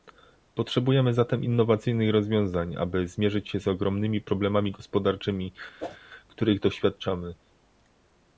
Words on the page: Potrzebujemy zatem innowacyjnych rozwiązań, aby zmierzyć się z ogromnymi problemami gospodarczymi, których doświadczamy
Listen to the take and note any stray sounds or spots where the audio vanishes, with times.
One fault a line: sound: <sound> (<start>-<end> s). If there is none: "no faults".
sound: whoosh (5.8-6.0 s)